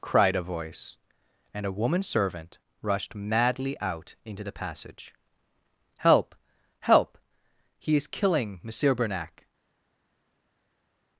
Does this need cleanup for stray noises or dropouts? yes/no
no